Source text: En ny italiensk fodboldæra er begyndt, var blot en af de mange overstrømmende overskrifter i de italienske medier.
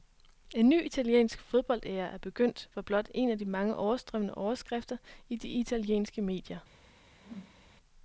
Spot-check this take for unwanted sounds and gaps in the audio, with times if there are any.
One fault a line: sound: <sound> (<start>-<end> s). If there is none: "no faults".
sound: whoosh (7.1-7.7 s)